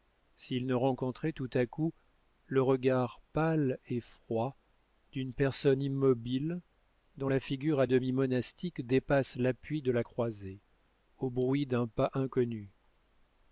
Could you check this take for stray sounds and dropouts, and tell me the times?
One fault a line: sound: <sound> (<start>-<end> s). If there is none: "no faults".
no faults